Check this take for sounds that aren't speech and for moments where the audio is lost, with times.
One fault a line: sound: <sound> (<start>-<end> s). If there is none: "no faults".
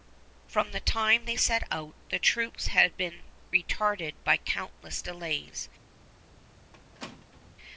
sound: squeak (6.7-7.5 s)